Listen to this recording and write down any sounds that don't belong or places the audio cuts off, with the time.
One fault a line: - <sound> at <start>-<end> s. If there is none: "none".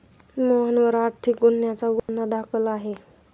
- dropout at 2.0-2.1 s